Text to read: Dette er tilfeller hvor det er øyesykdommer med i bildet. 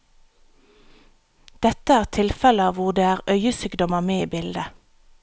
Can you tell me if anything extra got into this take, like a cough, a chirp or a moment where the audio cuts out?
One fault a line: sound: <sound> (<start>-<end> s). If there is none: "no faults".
no faults